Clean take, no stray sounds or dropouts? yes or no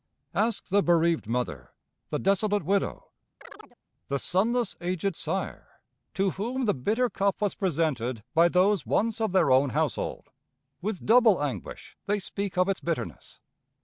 no